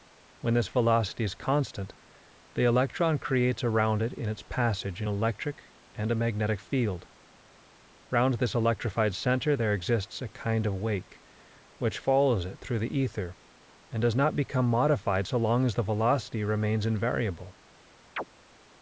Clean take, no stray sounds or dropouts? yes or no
no